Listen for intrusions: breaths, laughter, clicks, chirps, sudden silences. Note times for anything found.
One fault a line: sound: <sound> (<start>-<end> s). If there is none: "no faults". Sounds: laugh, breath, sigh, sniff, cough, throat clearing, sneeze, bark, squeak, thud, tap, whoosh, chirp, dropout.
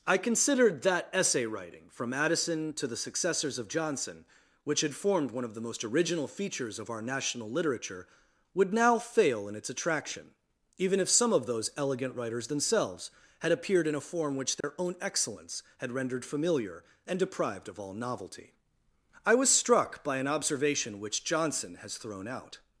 sound: dropout (14.6-14.6 s)